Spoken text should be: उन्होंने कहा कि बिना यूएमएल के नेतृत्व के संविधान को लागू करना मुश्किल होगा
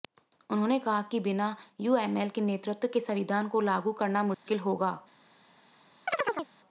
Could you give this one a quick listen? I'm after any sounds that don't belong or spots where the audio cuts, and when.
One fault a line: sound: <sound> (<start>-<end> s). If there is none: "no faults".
sound: dropout (4.3-4.5 s)
sound: chirp (6.1-6.5 s)